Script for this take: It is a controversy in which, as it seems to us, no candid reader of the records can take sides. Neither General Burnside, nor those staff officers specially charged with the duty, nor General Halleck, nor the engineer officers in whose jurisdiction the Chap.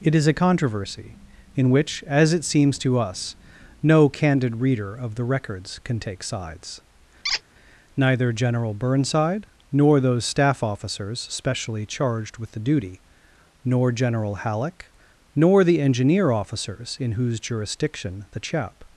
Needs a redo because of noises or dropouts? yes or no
yes